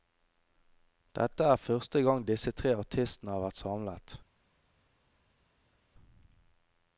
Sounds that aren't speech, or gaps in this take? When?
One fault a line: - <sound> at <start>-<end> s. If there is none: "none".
none